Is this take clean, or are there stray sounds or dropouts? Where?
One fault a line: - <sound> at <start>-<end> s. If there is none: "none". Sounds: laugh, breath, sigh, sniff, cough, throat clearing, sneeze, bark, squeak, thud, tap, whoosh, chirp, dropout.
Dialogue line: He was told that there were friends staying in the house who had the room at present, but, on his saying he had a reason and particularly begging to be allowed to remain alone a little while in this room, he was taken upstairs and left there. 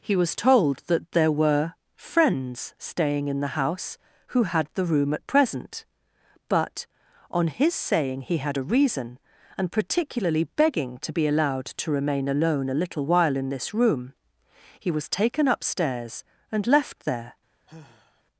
- sigh at 17.7-18.2 s